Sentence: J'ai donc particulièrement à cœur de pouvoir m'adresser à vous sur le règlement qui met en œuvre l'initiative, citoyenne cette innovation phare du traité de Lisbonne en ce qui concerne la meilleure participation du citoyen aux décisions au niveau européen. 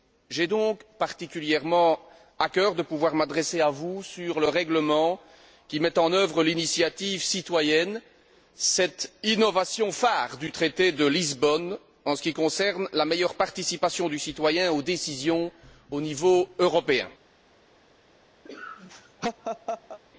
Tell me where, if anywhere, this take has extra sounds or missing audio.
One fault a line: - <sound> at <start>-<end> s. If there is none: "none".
- laugh at 18.5-20.0 s